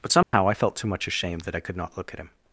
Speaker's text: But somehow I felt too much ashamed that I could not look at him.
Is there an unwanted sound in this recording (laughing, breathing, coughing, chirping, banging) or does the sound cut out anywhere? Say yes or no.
yes